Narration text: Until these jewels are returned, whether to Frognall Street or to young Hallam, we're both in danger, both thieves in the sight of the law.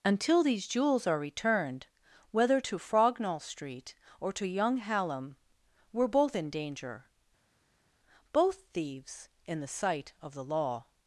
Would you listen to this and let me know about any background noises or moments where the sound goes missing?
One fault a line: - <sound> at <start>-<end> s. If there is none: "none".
none